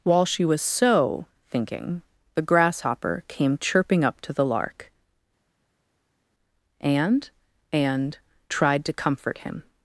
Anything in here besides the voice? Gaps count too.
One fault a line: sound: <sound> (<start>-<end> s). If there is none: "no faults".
no faults